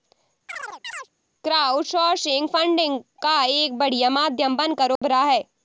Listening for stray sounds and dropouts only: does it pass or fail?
fail